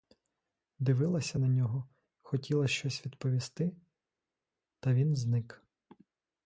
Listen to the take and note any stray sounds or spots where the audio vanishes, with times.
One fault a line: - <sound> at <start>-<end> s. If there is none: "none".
none